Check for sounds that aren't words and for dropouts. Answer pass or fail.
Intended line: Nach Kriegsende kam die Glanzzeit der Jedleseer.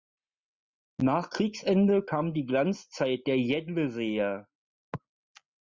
pass